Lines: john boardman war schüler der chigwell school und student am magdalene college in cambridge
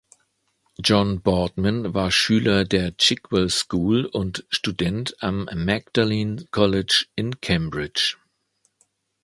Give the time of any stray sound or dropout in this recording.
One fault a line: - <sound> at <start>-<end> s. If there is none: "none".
none